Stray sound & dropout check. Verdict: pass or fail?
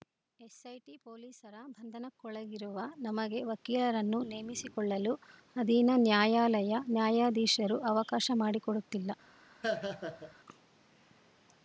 fail